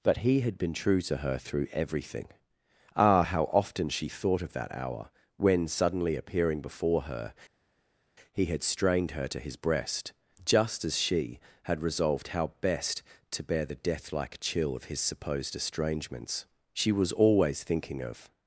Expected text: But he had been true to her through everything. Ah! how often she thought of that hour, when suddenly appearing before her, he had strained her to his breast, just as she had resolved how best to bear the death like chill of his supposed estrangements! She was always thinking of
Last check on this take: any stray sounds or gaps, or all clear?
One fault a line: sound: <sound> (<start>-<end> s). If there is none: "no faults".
no faults